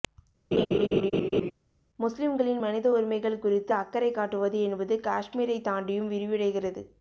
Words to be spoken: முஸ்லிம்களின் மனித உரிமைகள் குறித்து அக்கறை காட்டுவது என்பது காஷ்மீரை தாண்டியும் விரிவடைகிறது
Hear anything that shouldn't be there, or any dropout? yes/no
yes